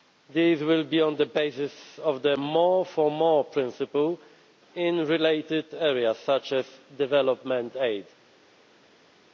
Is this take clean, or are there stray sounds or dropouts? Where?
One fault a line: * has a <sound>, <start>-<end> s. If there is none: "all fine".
all fine